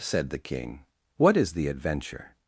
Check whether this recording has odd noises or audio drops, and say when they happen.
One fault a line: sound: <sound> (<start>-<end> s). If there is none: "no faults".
no faults